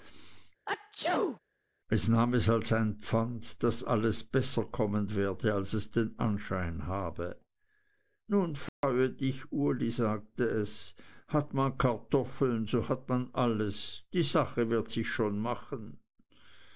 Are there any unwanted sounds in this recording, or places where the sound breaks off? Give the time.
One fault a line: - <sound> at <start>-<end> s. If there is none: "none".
- sneeze at 0.7-1.4 s
- dropout at 8.7-8.8 s